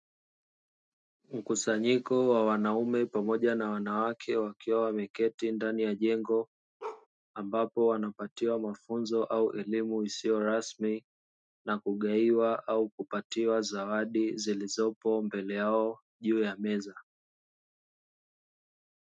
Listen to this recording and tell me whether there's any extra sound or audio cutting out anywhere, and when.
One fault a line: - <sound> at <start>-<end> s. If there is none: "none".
- bark at 6.8-7.1 s